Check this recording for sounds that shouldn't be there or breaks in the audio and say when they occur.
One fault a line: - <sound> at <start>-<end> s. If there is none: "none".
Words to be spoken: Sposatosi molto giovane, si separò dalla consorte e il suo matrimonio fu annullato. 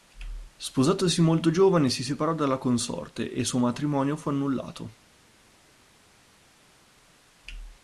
none